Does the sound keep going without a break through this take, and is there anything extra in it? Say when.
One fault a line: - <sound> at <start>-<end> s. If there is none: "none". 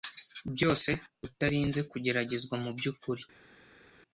none